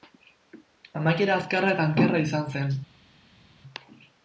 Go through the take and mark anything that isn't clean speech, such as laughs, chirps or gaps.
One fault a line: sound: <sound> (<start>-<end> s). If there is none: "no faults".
no faults